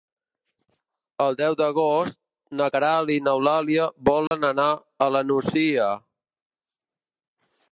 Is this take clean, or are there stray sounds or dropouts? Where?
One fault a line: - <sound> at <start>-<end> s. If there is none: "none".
- dropout at 4.3-4.3 s